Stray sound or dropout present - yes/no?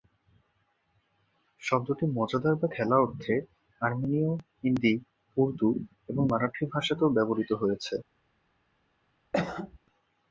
yes